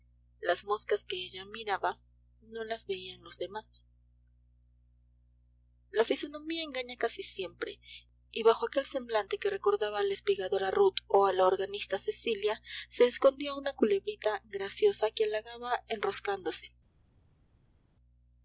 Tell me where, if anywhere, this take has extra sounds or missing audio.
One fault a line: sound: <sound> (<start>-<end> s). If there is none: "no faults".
no faults